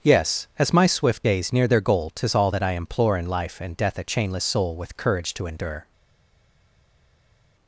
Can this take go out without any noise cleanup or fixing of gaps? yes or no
yes